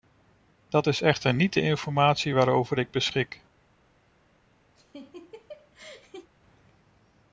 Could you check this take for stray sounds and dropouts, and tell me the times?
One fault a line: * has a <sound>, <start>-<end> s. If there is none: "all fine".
* has a laugh, 4.8-6.3 s